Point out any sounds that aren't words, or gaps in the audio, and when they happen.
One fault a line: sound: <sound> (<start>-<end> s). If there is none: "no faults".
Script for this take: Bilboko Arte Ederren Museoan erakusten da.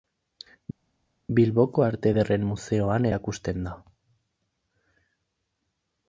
no faults